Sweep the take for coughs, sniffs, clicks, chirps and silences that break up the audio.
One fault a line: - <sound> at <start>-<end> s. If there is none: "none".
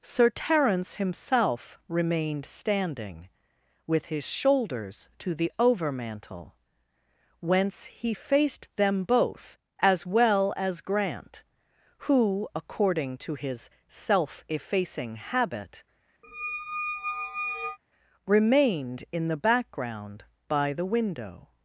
- squeak at 16.2-17.8 s